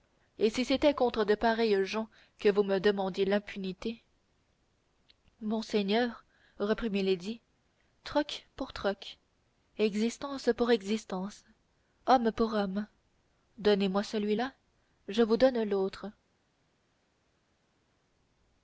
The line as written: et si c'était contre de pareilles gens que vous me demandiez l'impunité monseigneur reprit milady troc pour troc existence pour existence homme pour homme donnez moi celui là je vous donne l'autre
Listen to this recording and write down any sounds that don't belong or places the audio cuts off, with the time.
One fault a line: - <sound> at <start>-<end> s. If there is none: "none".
none